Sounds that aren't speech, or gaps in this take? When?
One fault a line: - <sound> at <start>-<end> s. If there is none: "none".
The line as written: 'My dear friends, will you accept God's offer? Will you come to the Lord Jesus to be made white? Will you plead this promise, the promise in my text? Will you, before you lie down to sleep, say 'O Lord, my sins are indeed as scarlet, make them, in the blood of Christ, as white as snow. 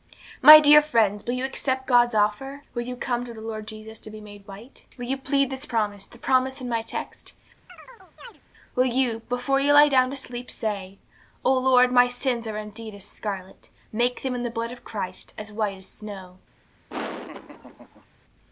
- chirp at 7.7-8.4 s
- laugh at 16.9-18.1 s